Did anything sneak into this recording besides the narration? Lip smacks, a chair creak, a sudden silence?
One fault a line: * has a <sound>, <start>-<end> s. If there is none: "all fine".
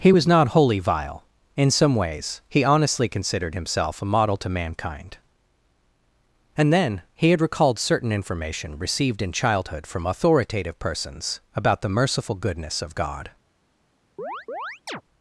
* has a chirp, 14.2-15.0 s